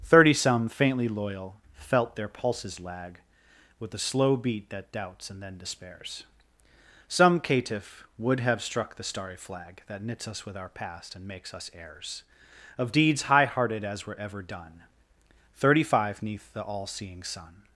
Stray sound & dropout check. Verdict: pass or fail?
pass